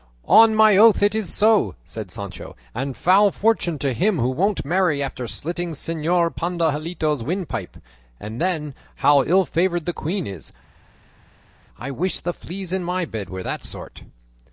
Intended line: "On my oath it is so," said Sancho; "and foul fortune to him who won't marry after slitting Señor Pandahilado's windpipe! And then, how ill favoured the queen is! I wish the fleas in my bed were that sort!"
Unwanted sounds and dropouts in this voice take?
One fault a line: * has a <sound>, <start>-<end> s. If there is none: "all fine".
all fine